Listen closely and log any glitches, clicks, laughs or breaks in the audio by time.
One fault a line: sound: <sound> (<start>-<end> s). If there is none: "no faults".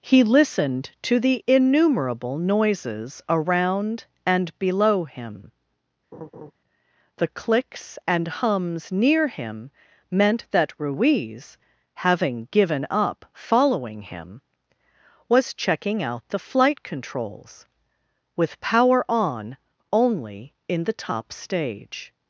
sound: laugh (6.1-6.5 s)